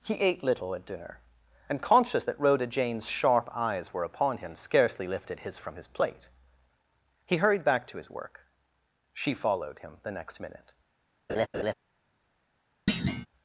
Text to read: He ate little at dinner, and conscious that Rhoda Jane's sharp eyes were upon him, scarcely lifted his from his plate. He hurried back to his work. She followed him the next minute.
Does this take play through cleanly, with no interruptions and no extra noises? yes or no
no